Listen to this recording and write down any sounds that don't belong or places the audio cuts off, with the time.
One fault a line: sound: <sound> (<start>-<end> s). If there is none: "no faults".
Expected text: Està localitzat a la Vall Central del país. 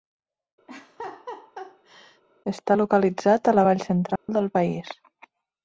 sound: laugh (0.7-2.2 s)
sound: dropout (4.2-4.3 s)